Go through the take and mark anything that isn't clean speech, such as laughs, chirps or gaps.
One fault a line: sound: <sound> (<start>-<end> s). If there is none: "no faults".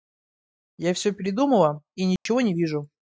sound: dropout (2.2-2.3 s)